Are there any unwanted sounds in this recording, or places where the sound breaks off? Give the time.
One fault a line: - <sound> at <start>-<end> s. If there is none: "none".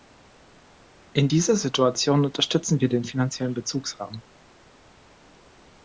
none